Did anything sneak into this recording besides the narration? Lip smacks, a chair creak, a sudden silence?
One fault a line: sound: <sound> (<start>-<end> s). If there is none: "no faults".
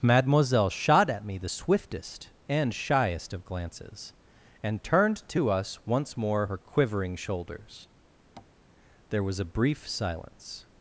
sound: tap (8.4-8.5 s)